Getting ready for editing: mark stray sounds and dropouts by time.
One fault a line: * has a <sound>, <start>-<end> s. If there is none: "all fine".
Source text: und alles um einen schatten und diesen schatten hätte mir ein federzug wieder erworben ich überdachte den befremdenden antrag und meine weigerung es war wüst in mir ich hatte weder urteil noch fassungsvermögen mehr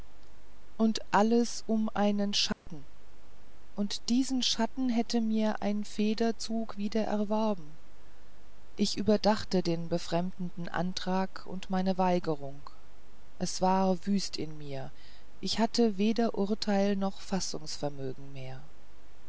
* has a dropout, 2.5-2.7 s